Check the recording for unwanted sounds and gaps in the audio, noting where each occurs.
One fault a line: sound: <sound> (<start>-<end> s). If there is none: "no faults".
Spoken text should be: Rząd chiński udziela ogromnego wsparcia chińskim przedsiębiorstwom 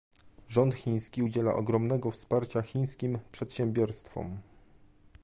no faults